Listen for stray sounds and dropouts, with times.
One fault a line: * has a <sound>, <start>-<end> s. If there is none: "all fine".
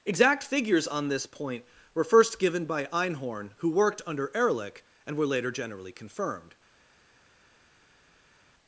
all fine